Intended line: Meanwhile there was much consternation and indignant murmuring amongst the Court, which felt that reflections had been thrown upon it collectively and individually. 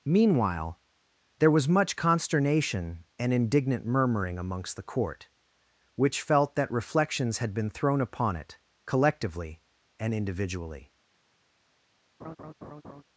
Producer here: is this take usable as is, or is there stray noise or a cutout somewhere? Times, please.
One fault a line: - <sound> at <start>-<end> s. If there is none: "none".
- laugh at 12.2-13.0 s